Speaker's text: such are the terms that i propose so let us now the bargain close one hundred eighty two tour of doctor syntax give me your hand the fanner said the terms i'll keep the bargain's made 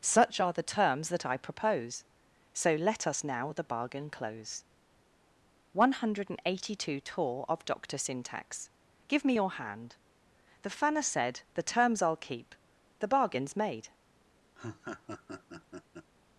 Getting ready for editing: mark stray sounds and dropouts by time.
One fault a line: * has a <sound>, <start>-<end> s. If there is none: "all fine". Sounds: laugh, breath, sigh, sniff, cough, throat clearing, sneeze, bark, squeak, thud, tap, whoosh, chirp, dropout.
* has a laugh, 14.5-16.1 s